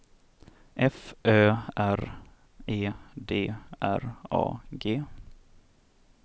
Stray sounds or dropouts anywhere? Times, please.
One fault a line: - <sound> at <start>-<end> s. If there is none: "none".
none